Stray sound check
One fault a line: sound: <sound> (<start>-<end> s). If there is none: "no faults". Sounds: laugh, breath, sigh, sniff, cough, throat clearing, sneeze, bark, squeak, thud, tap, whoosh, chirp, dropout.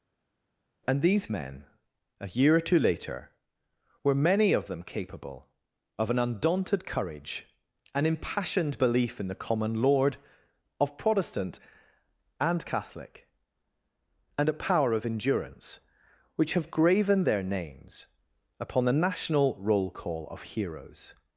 no faults